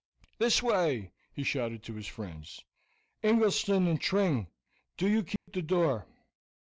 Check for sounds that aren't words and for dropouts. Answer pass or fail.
fail